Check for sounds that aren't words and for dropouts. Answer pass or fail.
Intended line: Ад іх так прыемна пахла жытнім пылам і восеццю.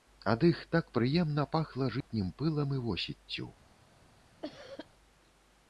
fail